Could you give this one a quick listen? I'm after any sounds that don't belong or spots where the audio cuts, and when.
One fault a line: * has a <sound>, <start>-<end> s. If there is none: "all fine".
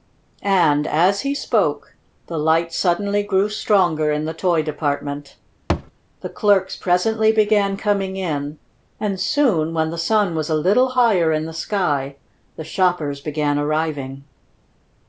* has a thud, 5.7-5.9 s